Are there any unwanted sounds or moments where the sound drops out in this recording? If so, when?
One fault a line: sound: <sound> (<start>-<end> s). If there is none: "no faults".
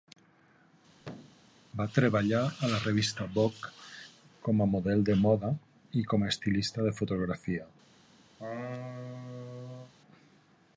sound: thud (1.0-1.5 s)
sound: laugh (8.4-9.9 s)